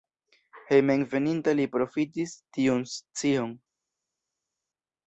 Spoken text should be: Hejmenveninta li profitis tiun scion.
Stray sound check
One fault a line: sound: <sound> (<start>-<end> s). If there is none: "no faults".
no faults